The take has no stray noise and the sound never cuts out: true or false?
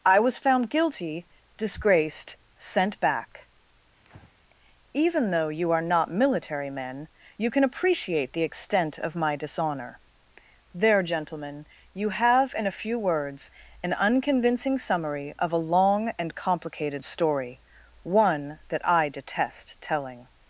false